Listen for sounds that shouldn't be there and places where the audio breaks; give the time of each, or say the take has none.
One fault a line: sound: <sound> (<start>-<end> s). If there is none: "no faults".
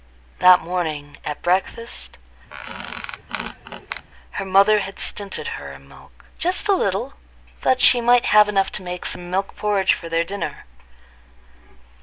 sound: squeak (2.5-4.1 s)